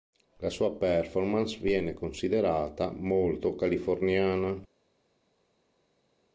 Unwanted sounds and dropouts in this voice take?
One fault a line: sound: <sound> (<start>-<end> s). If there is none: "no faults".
no faults